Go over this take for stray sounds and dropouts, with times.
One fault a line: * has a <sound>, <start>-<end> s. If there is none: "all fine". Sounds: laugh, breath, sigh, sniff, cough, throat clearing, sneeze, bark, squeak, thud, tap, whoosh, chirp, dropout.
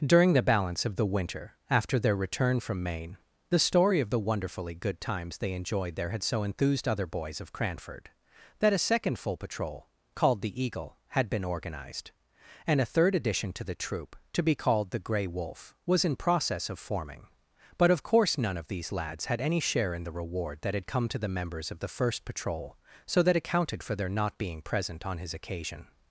all fine